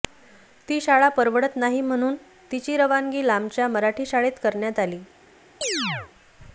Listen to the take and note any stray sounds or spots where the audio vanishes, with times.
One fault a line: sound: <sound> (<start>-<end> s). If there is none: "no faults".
sound: chirp (5.6-6.1 s)